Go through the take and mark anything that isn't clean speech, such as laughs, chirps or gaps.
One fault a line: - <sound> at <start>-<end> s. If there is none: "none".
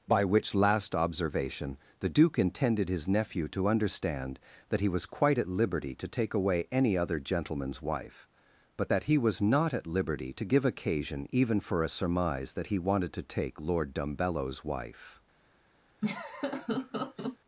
- laugh at 16.0-17.4 s